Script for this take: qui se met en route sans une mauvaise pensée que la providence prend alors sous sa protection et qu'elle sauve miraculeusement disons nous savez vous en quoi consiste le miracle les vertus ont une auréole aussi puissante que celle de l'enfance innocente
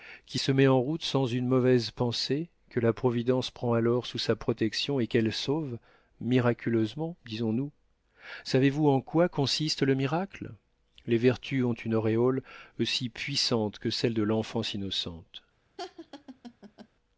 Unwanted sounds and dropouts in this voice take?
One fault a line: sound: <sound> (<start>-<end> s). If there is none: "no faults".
sound: laugh (15.8-16.9 s)